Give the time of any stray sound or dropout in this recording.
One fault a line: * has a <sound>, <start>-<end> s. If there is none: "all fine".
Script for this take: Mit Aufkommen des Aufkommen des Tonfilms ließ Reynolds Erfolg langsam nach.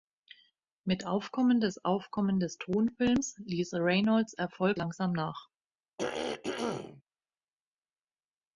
* has a throat clearing, 6.0-7.0 s